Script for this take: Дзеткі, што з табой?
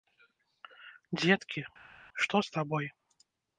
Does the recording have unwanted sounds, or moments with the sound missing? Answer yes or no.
no